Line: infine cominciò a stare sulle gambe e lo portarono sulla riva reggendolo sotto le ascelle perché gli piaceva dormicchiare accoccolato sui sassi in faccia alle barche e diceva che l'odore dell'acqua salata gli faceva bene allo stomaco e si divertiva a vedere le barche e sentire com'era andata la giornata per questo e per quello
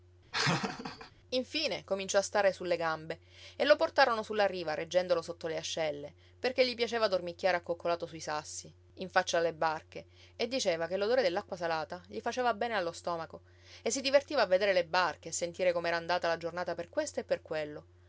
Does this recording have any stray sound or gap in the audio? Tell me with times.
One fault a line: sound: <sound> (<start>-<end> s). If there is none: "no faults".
sound: laugh (0.3-1.1 s)